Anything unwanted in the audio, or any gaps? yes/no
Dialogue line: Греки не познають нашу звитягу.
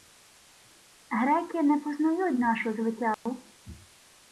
yes